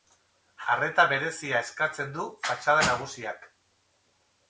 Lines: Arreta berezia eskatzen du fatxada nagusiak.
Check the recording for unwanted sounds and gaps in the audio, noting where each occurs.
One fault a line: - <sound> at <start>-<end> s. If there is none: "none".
none